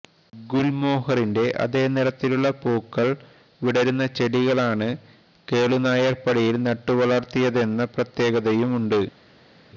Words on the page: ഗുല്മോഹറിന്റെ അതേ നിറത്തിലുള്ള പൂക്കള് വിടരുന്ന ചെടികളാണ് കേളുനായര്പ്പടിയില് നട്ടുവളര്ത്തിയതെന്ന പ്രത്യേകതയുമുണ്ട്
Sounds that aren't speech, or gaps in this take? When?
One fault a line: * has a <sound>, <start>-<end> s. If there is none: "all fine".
all fine